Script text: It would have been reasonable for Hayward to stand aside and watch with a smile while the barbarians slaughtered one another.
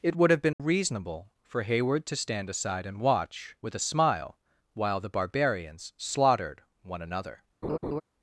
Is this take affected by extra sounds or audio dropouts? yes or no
yes